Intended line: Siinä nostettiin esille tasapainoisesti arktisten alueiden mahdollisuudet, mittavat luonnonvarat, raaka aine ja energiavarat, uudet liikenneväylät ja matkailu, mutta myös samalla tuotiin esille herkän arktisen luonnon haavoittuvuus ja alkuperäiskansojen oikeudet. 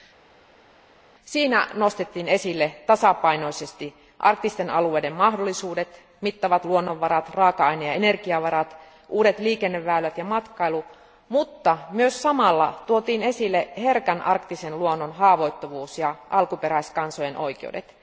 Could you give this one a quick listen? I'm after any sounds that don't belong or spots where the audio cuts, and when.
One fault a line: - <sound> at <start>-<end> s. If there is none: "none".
none